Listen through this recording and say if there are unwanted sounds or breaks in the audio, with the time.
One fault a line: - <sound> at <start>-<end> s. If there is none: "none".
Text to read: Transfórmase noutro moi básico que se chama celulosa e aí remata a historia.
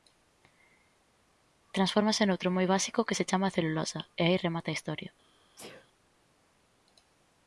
- sneeze at 5.6-5.9 s